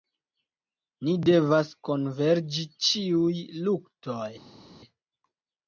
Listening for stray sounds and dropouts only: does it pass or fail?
pass